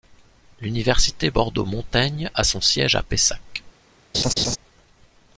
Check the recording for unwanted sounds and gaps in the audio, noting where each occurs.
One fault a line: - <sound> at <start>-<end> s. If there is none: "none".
- laugh at 4.1-4.6 s